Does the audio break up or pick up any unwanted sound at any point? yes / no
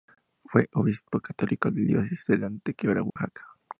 yes